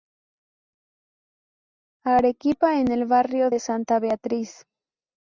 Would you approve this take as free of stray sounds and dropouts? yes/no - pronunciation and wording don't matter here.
yes